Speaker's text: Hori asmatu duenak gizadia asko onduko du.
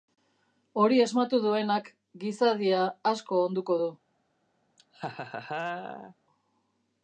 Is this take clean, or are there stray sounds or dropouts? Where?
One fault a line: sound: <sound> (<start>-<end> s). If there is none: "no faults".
sound: laugh (4.8-6.1 s)